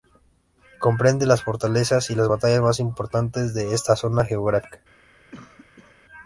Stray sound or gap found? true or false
true